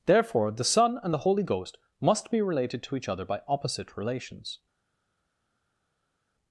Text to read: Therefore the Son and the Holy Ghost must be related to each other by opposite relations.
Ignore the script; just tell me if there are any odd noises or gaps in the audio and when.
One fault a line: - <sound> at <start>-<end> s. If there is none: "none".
none